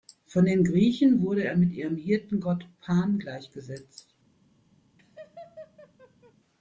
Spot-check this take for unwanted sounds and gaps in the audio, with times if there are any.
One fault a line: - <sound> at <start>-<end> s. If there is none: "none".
- laugh at 5.0-6.3 s